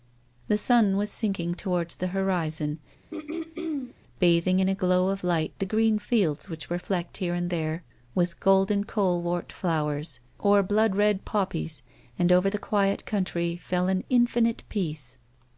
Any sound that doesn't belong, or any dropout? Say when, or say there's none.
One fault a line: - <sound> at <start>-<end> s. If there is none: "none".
- throat clearing at 3.1-4.0 s